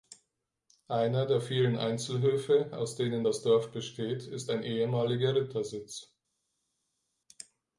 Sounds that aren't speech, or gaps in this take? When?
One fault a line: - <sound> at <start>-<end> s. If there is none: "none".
none